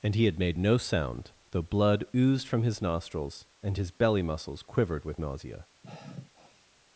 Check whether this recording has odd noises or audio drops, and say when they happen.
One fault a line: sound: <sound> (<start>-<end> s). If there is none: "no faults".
sound: sigh (5.8-6.7 s)